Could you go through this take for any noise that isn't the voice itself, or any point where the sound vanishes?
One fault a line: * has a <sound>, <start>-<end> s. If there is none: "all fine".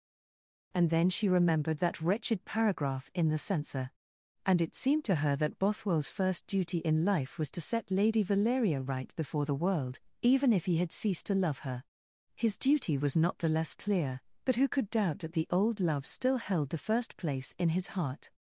all fine